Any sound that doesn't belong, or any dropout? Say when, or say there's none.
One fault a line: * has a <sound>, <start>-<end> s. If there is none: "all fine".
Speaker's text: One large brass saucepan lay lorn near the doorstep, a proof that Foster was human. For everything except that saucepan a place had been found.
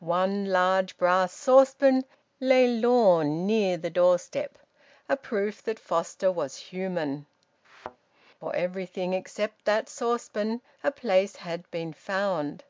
* has a thud, 7.6-8.0 s